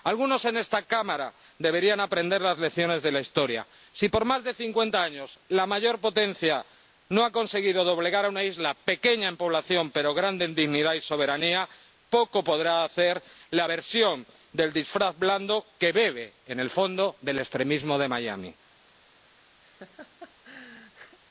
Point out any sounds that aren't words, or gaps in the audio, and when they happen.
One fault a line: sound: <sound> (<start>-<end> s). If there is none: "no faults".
sound: laugh (19.6-21.2 s)